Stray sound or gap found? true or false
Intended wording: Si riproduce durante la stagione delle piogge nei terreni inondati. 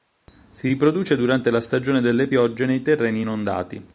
false